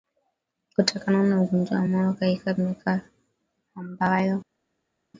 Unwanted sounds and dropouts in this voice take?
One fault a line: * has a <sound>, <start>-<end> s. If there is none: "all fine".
all fine